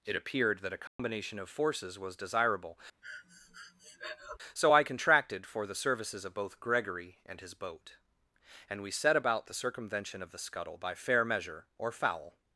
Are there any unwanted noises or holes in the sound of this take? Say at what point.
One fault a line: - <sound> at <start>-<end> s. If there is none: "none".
- dropout at 0.9-1.0 s
- breath at 3.0-4.4 s